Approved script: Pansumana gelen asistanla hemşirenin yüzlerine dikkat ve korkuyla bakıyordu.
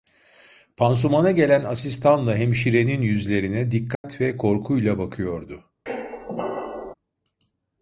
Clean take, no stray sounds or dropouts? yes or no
no